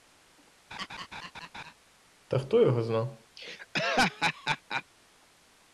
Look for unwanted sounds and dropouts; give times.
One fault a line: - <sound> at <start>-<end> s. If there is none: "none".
- laugh at 0.7-1.7 s
- laugh at 3.4-4.8 s